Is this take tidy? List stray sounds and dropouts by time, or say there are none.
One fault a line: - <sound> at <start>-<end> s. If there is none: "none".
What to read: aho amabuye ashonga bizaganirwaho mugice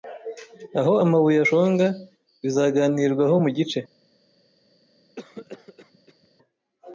- cough at 5.2-6.3 s